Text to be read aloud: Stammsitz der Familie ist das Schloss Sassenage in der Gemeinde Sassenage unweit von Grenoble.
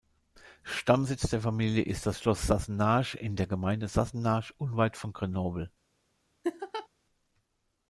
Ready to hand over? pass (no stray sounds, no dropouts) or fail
fail